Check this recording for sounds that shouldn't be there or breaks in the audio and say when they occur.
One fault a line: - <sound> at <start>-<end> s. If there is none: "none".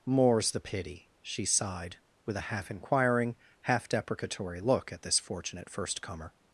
none